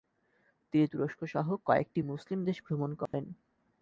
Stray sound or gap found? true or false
true